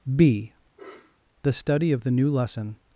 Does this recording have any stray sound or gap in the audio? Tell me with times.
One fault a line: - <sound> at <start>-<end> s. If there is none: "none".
- sniff at 0.8-1.2 s